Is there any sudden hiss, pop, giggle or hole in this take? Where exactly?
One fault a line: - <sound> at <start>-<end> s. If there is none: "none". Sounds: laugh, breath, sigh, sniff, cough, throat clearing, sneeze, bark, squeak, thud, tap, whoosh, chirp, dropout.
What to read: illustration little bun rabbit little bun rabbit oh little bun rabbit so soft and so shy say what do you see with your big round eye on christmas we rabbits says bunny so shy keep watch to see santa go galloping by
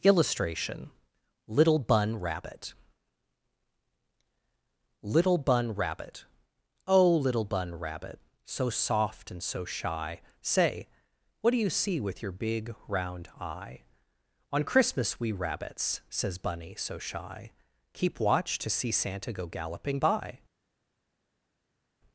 none